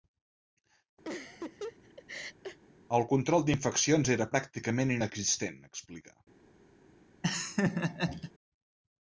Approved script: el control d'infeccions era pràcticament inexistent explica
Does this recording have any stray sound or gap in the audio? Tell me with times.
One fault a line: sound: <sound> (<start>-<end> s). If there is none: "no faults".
sound: laugh (1.0-2.6 s)
sound: laugh (7.2-8.3 s)